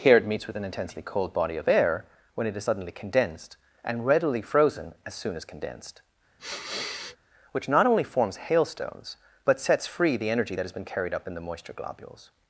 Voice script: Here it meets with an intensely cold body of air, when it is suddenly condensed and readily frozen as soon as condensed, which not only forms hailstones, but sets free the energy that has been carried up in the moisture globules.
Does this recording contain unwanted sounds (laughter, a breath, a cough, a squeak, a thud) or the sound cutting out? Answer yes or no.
yes